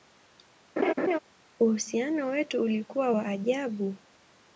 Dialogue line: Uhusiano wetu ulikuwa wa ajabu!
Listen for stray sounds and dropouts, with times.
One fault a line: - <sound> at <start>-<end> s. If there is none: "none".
- laugh at 0.8-1.2 s